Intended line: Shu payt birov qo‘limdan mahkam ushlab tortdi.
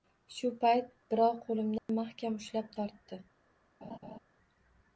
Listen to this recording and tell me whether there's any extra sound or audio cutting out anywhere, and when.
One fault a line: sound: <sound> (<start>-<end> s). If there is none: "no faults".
sound: dropout (1.8-1.9 s)
sound: laugh (3.8-4.2 s)